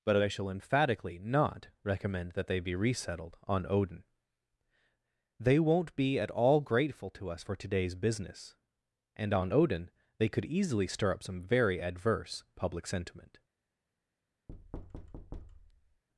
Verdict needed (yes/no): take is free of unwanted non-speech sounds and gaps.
no